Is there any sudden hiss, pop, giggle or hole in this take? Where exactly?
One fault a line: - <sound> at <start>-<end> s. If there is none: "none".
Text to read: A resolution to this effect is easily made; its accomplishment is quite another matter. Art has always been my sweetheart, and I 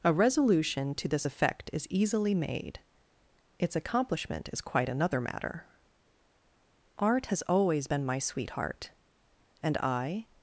none